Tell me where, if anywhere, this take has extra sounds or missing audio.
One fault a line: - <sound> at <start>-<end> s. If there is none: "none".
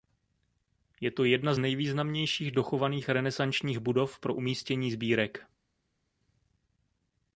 none